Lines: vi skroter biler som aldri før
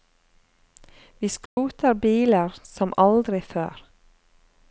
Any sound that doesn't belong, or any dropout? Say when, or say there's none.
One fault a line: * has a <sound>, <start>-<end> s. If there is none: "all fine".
* has a dropout, 1.5-1.6 s